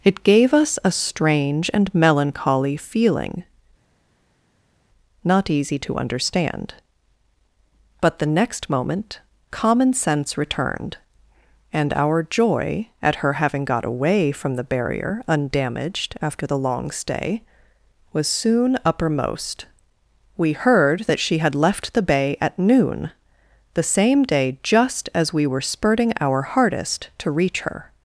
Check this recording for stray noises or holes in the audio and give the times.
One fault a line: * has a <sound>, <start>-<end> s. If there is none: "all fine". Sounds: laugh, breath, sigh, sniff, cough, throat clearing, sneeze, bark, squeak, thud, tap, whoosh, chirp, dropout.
all fine